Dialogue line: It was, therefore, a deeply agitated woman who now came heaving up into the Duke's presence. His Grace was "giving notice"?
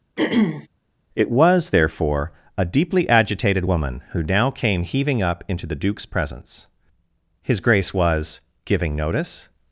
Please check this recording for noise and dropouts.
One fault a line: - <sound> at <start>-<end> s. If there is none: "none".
- throat clearing at 0.2-0.7 s